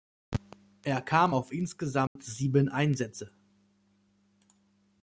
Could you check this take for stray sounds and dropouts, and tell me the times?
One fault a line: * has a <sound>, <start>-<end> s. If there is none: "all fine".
* has a dropout, 2.1-2.2 s